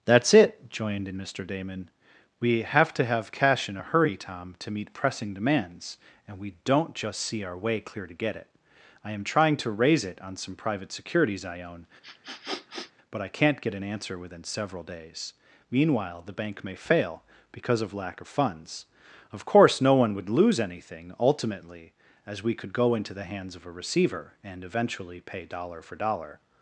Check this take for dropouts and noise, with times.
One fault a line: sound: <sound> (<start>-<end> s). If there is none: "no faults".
sound: sniff (12.0-12.9 s)